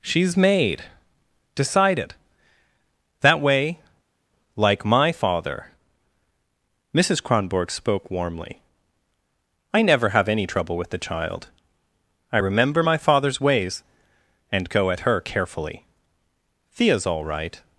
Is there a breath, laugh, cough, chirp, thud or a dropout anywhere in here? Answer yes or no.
no